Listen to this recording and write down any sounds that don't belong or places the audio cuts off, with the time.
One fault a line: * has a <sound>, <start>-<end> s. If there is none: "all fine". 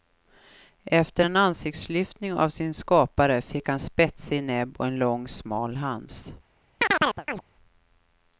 * has a chirp, 6.8-7.4 s